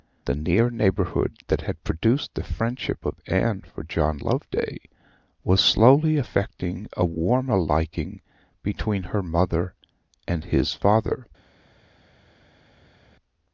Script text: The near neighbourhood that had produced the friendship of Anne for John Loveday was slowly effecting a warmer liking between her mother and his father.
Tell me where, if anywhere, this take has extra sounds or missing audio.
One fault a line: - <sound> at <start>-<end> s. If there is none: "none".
none